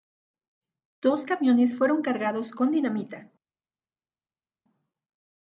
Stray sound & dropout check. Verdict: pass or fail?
pass